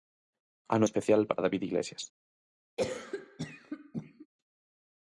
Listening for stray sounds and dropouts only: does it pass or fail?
fail